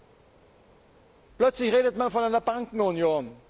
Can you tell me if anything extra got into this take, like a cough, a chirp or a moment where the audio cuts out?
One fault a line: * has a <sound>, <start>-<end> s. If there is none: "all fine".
all fine